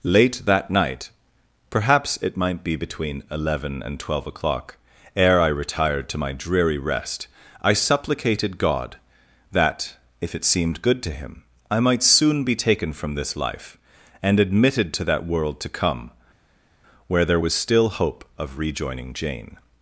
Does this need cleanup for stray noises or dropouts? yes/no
no